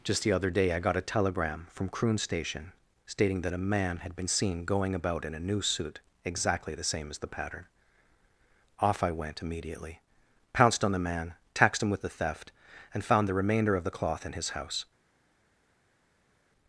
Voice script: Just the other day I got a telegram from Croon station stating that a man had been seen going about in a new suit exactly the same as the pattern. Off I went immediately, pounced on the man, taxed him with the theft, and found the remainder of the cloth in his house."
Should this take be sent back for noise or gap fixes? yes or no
no